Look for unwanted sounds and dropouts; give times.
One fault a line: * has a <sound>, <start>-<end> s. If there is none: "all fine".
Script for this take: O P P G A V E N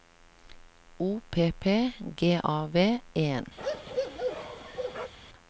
* has a bark, 3.6-5.1 s